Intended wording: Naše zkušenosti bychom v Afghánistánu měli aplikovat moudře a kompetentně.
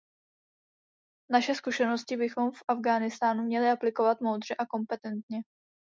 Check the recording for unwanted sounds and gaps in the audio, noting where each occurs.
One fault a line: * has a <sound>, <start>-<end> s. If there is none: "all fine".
all fine